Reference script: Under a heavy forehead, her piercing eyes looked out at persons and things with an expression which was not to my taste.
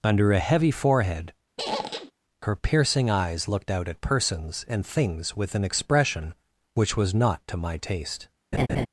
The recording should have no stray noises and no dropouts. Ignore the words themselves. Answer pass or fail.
fail